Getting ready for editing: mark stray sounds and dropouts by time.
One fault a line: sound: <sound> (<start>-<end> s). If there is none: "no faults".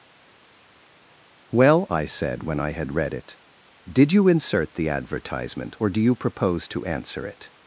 no faults